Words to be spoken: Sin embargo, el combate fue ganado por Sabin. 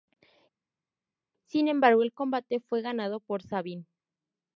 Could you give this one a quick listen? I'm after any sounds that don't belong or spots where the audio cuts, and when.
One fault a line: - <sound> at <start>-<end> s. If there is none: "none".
none